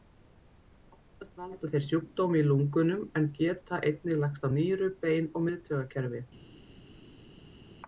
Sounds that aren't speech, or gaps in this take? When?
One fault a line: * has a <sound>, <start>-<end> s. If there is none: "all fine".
all fine